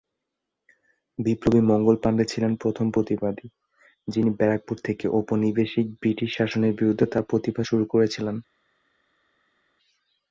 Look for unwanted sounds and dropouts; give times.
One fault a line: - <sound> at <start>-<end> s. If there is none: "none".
none